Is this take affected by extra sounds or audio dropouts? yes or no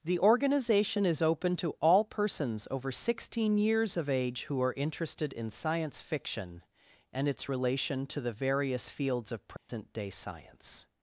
yes